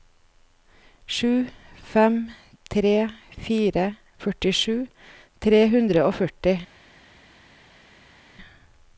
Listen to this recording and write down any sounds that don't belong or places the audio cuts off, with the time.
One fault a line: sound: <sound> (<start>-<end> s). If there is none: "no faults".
no faults